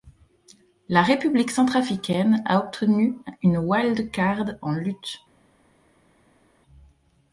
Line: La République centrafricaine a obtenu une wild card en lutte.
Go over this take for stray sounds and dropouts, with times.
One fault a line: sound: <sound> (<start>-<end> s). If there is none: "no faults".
no faults